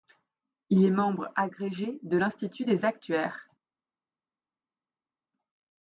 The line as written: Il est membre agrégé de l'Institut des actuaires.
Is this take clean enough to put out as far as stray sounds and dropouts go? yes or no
yes